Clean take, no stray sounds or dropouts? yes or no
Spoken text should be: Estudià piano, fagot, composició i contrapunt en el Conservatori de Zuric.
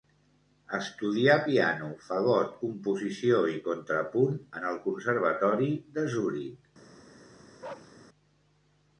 no